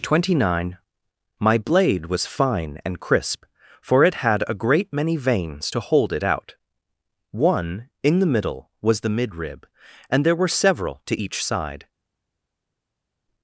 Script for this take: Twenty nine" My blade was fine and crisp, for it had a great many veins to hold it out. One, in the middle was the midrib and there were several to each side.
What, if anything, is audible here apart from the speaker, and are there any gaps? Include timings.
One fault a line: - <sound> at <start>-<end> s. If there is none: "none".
none